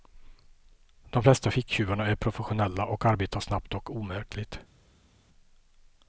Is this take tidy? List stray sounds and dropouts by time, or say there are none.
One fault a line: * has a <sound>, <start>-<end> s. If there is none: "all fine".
all fine